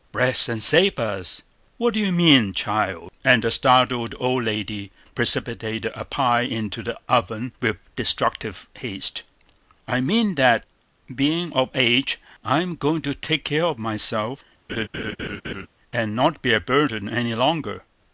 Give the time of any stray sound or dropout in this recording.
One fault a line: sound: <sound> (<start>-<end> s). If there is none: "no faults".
sound: laugh (14.7-15.7 s)